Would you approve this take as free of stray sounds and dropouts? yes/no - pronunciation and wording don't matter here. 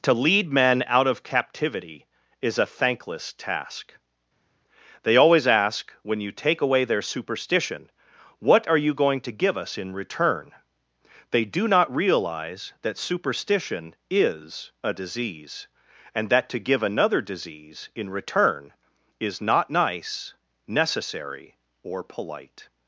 yes